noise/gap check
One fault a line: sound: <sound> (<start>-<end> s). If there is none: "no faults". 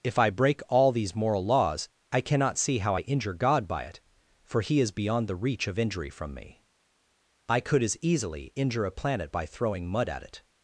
no faults